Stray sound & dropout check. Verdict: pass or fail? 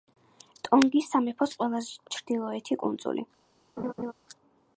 fail